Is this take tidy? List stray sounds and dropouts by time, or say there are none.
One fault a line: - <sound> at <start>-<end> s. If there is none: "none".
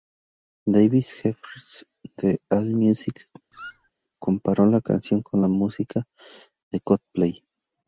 - squeak at 3.5-3.9 s